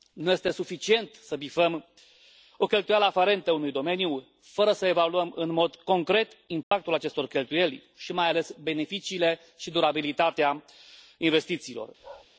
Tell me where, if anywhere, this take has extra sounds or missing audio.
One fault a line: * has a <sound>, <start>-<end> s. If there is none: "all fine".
* has a dropout, 6.6-6.7 s
* has a bark, 12.0-12.3 s